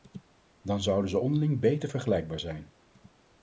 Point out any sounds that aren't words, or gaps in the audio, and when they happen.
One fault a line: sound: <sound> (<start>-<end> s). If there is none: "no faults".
no faults